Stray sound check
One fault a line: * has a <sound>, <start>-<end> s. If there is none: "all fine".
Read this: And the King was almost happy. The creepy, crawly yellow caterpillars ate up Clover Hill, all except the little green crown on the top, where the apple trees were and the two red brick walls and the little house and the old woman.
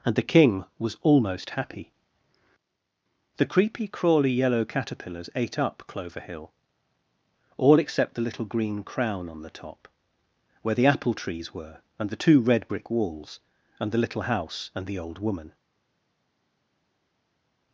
all fine